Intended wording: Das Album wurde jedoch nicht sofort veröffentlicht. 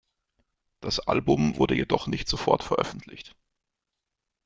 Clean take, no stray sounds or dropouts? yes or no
yes